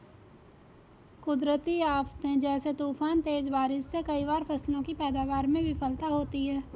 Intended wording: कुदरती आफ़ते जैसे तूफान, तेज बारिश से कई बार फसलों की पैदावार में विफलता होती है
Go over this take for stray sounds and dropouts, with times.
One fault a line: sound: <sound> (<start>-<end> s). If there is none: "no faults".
no faults